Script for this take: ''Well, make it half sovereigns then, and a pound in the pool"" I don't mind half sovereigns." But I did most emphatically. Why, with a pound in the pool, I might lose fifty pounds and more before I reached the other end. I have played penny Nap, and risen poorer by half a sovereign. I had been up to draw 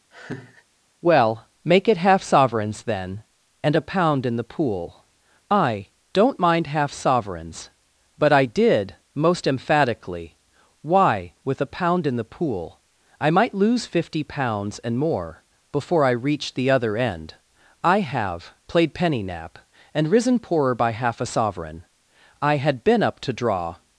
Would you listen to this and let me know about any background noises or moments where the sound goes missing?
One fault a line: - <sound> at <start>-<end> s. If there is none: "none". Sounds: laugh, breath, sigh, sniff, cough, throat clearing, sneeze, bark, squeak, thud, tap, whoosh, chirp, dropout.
- laugh at 0.1-0.6 s